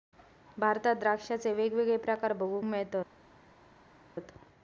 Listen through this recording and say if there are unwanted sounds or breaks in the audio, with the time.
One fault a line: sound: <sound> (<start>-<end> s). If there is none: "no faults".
no faults